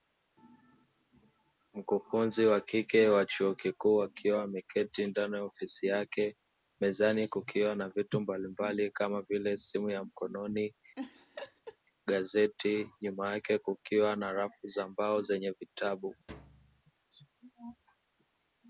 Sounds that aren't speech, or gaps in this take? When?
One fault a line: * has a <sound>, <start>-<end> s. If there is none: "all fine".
* has a laugh, 10.9-11.8 s
* has a thud, 16.3-16.8 s